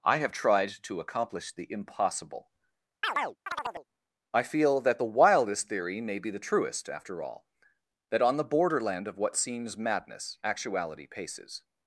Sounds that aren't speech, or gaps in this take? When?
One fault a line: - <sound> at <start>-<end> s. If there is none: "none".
- chirp at 3.0-3.9 s